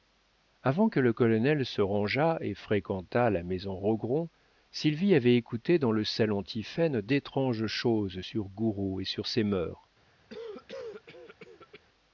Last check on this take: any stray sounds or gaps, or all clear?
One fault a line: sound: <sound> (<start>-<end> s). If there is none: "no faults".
sound: cough (10.3-11.8 s)